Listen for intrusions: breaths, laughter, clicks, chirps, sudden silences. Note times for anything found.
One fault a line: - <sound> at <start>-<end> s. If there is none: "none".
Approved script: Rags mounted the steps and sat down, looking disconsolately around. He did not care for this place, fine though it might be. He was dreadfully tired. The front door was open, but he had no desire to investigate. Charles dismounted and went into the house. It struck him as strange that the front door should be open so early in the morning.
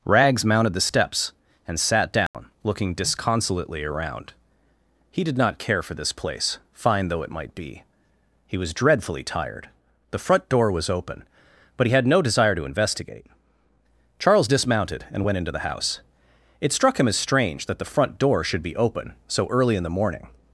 - dropout at 2.3-2.3 s